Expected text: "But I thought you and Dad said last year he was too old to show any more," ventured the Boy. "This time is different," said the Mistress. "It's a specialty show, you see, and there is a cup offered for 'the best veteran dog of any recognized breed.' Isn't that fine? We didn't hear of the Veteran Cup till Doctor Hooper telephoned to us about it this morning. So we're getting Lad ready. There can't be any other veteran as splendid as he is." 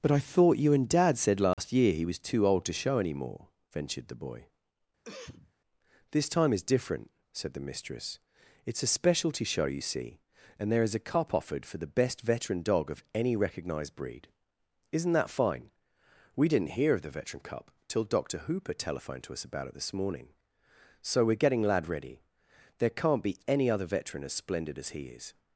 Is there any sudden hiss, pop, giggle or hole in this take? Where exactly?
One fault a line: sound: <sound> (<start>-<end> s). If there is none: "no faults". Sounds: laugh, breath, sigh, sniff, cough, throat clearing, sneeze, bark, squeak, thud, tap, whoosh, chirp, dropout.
sound: dropout (1.5-1.6 s)
sound: cough (5.0-5.5 s)